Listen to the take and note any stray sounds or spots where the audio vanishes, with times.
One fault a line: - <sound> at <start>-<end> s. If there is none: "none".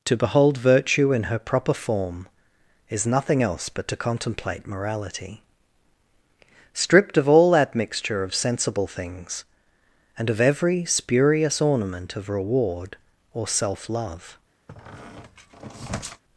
- squeak at 14.7-16.2 s